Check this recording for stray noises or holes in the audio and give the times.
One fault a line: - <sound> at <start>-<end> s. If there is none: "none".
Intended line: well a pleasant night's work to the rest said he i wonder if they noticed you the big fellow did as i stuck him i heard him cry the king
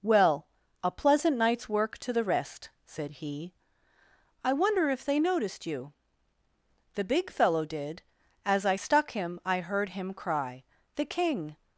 none